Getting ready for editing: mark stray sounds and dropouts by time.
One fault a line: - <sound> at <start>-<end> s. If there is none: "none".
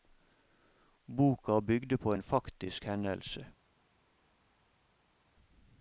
none